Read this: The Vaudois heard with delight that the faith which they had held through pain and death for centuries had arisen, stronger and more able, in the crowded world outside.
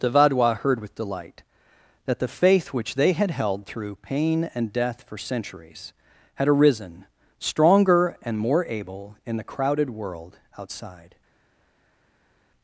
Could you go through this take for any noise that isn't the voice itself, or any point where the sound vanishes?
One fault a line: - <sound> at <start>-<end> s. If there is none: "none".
none